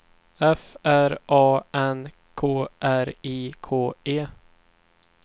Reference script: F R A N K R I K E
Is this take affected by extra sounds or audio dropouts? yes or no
no